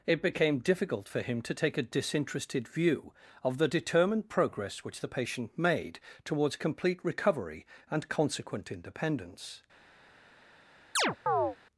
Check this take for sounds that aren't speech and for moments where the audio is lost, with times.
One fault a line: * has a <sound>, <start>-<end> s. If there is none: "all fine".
* has a chirp, 11.0-11.6 s